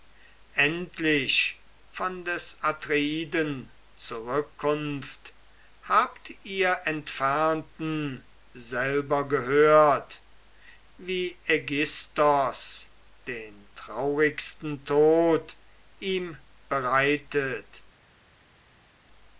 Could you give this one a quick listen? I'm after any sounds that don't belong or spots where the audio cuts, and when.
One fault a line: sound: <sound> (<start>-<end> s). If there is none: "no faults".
no faults